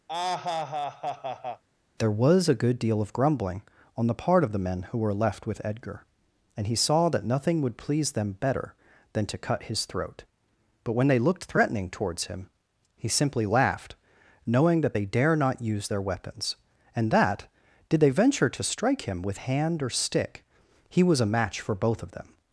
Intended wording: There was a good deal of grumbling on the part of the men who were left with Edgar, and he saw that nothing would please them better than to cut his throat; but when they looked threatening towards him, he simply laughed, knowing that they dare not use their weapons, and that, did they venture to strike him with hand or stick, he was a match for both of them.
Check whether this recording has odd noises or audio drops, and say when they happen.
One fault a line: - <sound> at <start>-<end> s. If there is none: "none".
- laugh at 0.1-1.6 s